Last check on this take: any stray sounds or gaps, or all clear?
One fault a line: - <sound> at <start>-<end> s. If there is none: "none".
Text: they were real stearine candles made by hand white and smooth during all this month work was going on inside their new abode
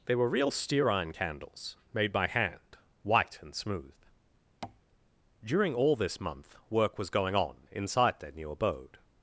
- tap at 4.6-4.8 s